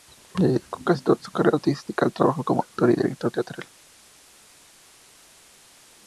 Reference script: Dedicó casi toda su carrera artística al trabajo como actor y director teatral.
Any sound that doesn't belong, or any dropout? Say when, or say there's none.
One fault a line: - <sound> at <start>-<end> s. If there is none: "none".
none